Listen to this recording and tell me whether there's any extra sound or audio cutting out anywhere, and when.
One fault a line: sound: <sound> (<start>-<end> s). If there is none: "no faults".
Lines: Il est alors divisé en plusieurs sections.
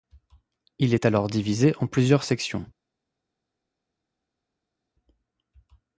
no faults